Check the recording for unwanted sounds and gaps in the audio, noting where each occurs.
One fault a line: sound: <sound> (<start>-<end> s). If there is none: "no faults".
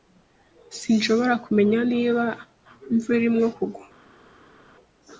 no faults